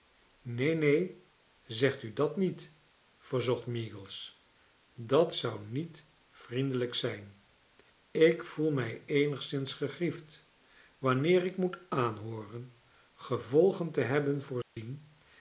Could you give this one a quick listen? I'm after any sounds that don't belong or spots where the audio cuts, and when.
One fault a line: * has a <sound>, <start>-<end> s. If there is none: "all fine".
* has a dropout, 14.6-14.8 s